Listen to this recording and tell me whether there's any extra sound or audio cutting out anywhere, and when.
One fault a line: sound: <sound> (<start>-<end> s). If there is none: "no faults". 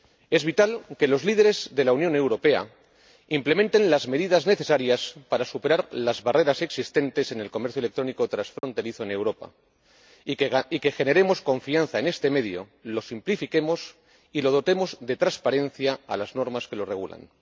sound: dropout (8.6-8.6 s)